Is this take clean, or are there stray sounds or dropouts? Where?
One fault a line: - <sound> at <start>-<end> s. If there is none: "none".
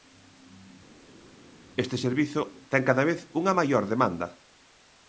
none